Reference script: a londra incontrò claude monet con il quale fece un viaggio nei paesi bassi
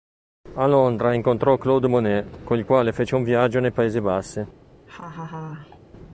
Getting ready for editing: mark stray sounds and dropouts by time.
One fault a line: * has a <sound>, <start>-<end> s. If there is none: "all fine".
* has a laugh, 4.9-5.8 s